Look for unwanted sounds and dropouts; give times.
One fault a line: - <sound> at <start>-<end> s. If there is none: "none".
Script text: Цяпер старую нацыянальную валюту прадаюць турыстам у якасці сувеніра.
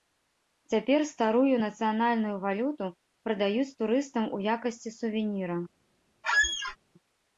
- squeak at 6.2-6.8 s